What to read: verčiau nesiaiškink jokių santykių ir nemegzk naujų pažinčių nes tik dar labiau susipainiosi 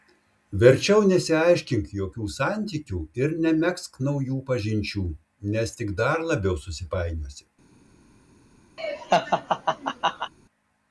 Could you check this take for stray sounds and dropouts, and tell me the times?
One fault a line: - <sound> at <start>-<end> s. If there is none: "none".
- laugh at 8.8-10.3 s